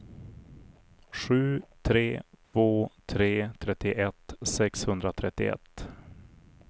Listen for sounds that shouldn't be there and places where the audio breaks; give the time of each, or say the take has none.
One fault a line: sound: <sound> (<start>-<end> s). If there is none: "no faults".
sound: dropout (2.4-2.5 s)